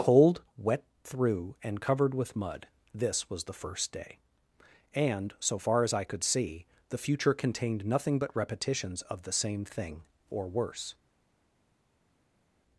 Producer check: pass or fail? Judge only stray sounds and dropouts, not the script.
pass